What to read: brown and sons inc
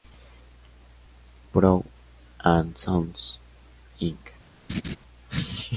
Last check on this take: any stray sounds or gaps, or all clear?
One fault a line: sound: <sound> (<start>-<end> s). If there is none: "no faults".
sound: laugh (4.7-5.0 s)